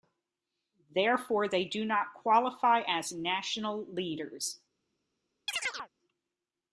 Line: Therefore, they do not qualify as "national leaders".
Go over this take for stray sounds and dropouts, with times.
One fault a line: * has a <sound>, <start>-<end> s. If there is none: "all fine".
* has a chirp, 5.5-5.9 s